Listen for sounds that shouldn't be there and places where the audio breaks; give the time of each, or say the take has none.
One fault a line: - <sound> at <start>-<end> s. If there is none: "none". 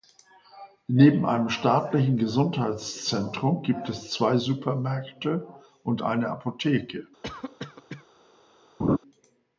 - cough at 7.2-8.1 s
- laugh at 8.8-9.0 s